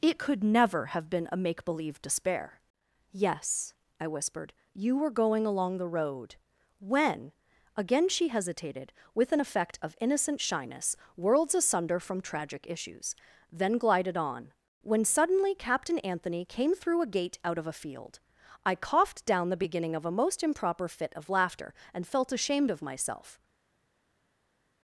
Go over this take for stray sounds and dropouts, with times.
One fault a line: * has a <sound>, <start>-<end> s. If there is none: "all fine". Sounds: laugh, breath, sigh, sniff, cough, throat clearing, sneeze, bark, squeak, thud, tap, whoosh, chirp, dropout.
all fine